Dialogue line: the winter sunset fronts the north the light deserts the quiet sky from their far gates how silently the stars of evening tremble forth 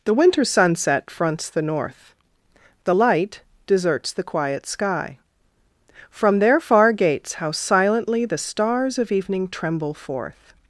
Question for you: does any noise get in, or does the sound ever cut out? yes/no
no